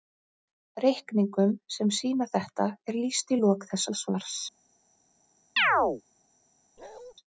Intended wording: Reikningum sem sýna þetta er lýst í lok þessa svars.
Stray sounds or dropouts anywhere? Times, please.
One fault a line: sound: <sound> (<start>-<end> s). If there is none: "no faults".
sound: chirp (5.6-6.0 s)
sound: bark (6.8-7.1 s)